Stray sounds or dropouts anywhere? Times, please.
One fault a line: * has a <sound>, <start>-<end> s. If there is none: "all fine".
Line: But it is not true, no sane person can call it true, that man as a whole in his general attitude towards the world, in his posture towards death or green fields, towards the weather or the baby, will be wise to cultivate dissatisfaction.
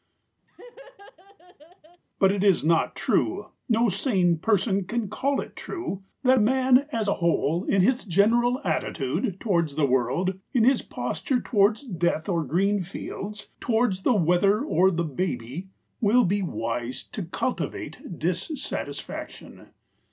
* has a laugh, 0.5-2.0 s